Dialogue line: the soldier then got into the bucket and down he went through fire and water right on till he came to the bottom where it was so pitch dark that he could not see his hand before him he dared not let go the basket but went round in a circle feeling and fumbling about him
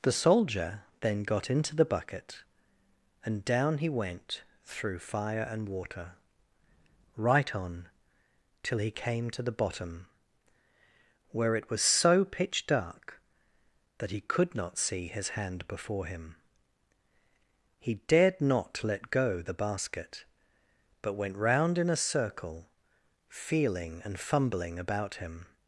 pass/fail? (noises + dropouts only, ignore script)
pass